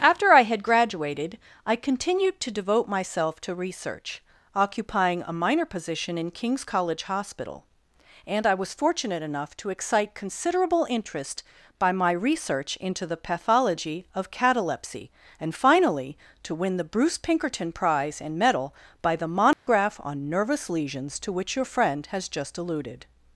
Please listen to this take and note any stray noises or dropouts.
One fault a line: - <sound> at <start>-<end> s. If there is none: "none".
- dropout at 19.5-19.7 s